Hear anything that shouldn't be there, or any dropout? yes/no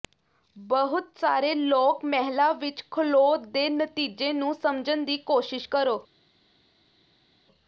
no